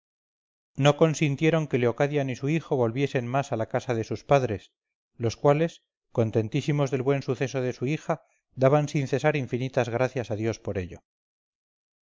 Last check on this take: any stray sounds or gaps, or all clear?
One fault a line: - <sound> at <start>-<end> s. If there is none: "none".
none